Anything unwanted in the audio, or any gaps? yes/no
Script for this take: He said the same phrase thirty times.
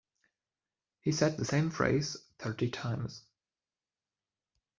no